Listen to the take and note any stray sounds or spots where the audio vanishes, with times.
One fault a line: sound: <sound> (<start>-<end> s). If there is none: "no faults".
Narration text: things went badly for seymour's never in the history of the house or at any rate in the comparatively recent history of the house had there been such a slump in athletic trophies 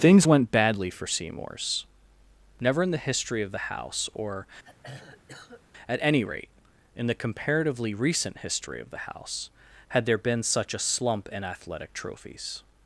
sound: throat clearing (4.6-5.6 s)